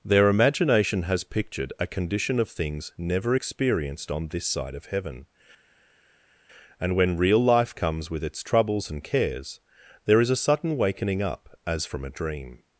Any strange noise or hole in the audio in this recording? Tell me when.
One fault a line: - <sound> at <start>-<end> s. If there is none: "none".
none